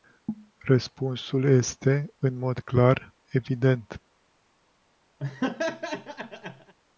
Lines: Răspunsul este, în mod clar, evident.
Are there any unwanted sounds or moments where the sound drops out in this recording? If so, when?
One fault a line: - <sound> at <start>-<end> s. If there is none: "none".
- laugh at 5.2-6.7 s